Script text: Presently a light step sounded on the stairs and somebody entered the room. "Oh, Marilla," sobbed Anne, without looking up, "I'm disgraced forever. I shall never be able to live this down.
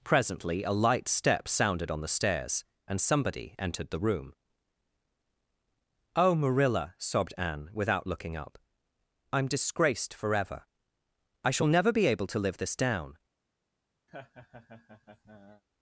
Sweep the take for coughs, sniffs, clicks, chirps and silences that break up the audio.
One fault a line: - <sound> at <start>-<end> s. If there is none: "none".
- laugh at 14.1-15.6 s